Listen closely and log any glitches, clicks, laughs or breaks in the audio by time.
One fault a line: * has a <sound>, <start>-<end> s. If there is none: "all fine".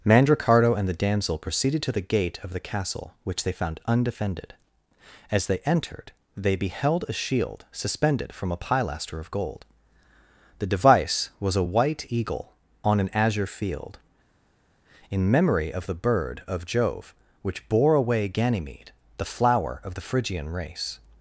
all fine